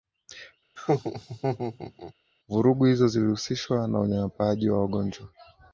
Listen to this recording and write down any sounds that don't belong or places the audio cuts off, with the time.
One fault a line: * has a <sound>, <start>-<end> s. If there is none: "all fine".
* has a laugh, 0.8-2.1 s